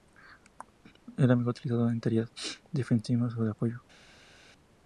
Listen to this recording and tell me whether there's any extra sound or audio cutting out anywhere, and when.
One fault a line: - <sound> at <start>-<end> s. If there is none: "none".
none